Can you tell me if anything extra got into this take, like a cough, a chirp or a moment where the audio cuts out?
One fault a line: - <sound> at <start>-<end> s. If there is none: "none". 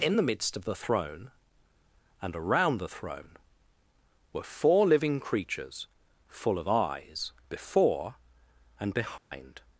- dropout at 9.2-9.3 s